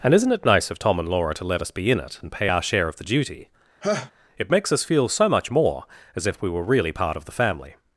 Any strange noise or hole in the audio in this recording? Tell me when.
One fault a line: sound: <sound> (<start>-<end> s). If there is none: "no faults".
sound: laugh (3.8-4.1 s)